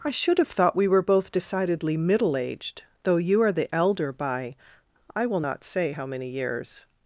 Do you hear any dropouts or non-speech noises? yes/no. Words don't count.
no